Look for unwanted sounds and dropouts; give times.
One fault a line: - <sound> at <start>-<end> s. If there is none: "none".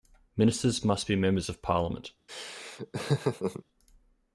- laugh at 2.3-3.6 s